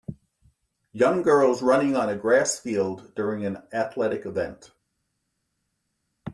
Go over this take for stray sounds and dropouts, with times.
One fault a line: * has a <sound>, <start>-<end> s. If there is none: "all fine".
all fine